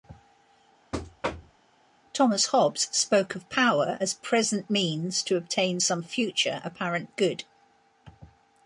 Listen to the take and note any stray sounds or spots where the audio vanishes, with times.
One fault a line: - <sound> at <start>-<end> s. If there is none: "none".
- thud at 0.9-1.6 s